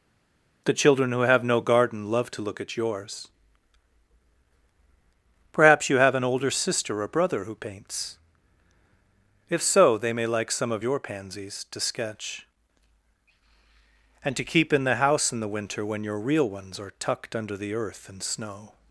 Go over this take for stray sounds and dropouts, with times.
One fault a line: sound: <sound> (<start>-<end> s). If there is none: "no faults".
no faults